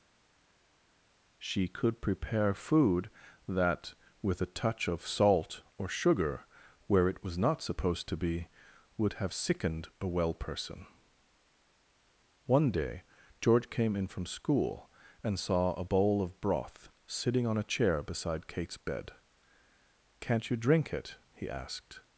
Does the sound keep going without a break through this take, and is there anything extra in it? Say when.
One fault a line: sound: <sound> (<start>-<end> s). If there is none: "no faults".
no faults